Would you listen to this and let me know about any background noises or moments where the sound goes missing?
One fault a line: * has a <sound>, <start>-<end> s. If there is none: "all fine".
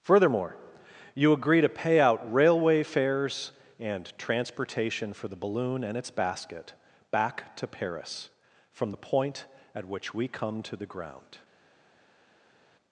all fine